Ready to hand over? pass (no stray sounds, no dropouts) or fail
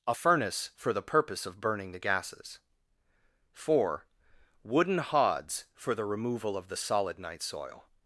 pass